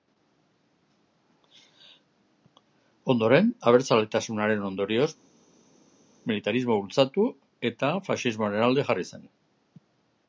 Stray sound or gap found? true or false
false